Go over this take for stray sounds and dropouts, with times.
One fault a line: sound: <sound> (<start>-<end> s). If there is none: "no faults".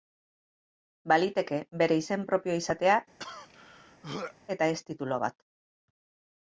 sound: throat clearing (3.2-4.3 s)